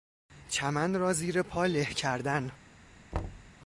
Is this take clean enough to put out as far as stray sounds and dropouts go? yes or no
no